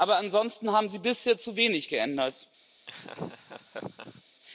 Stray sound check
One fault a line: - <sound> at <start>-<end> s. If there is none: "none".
- laugh at 2.9-4.2 s